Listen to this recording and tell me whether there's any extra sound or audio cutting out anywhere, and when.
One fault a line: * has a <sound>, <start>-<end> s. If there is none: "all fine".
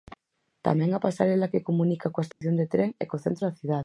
* has a dropout, 2.3-2.4 s